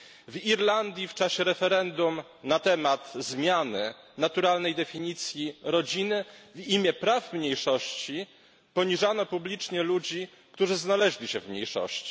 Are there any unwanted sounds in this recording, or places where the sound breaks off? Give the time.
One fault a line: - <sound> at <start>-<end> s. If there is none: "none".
none